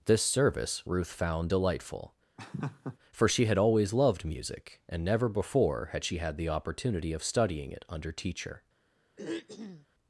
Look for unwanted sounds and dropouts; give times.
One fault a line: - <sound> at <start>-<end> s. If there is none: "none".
- laugh at 2.4-3.0 s
- throat clearing at 9.2-9.9 s